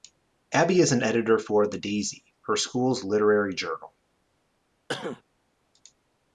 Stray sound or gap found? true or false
true